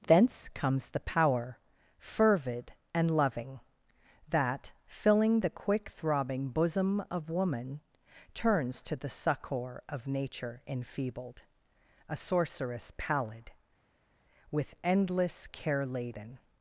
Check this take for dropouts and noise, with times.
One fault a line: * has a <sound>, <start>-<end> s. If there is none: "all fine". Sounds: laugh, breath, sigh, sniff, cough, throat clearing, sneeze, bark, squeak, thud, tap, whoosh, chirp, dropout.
all fine